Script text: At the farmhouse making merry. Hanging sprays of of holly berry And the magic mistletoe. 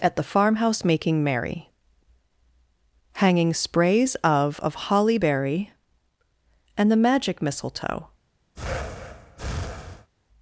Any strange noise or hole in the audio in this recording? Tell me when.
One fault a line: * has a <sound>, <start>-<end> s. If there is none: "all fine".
* has a breath, 8.5-10.1 s